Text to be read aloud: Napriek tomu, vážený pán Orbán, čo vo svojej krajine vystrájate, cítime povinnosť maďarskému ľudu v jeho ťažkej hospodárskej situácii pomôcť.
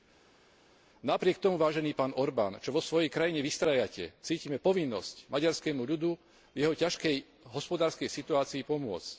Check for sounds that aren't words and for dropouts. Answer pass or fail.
pass